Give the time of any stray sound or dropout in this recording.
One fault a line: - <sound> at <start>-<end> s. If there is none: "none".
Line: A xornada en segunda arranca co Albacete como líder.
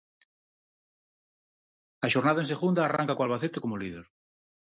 none